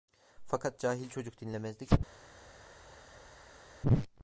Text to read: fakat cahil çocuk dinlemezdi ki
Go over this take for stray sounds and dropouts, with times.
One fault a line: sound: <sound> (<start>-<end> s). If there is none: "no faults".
no faults